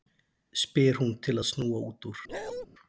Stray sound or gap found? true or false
true